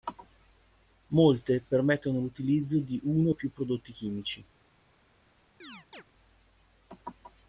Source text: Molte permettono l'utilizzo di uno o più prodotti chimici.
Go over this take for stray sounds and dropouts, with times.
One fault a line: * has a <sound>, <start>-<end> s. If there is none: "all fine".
* has a chirp, 5.6-6.0 s